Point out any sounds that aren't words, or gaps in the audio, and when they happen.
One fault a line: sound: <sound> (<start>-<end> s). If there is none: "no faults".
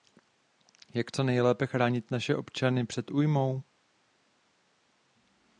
no faults